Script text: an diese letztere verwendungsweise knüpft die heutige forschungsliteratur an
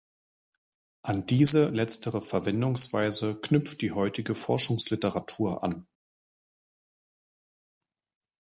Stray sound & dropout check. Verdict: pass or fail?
pass